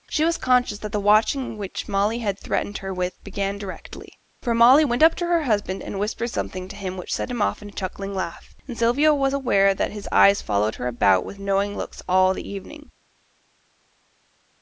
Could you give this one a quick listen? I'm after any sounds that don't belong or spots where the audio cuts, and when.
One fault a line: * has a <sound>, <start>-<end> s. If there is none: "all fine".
all fine